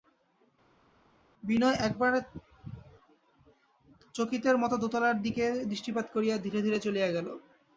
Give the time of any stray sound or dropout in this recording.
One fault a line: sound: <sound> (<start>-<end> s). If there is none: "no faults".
no faults